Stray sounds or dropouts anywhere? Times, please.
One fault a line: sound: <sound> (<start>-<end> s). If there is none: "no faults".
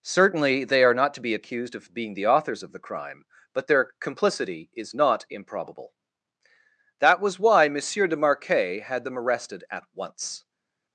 no faults